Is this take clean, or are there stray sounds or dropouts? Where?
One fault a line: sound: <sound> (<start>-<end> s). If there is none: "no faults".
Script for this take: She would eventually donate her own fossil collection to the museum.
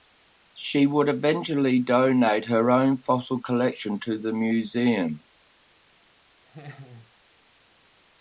sound: laugh (6.5-7.1 s)